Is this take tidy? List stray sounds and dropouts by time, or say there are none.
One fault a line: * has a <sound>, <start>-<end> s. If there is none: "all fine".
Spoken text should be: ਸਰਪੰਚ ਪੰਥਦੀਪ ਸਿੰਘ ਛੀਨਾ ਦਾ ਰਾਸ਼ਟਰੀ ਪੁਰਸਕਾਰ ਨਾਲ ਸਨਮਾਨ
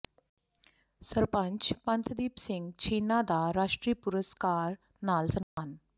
* has a dropout, 5.4-5.6 s